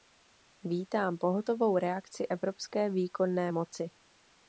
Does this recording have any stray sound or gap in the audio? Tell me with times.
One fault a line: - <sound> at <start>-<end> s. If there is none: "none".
none